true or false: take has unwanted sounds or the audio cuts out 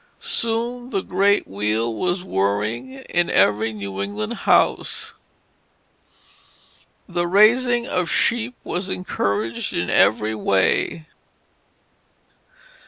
false